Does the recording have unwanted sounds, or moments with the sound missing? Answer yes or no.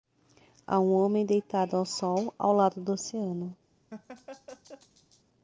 yes